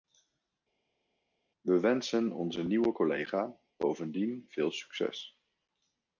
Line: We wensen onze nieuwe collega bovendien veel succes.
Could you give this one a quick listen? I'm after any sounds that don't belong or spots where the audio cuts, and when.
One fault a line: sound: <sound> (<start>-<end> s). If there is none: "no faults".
no faults